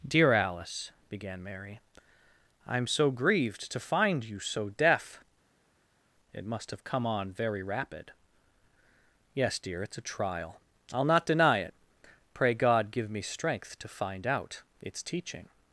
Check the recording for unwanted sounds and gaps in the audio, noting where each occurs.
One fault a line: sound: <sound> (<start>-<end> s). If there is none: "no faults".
no faults